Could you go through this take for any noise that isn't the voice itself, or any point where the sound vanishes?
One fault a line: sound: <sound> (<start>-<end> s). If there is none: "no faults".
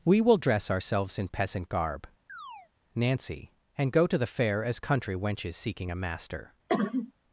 sound: chirp (2.3-2.7 s)
sound: cough (6.7-7.1 s)